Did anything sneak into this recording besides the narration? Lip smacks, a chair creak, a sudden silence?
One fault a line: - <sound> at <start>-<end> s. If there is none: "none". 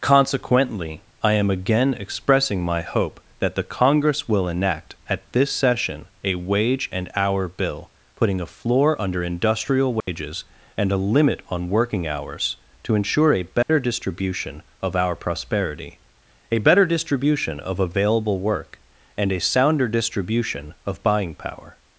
- dropout at 10.0-10.1 s
- dropout at 13.6-13.7 s